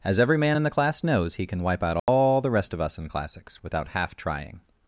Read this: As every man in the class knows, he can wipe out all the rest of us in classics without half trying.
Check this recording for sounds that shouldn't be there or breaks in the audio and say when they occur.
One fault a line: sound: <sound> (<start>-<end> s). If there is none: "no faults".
sound: dropout (2.0-2.1 s)